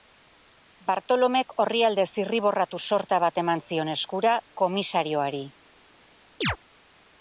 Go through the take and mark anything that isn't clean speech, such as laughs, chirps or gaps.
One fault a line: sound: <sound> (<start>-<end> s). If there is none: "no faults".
sound: chirp (6.4-6.6 s)